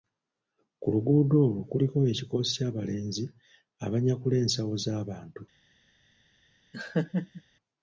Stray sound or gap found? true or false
true